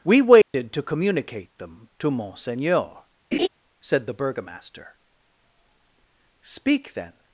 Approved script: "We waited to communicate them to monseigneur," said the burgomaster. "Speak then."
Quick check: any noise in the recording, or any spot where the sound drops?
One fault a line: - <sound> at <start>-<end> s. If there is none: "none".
- dropout at 0.4-0.5 s
- laugh at 3.3-3.5 s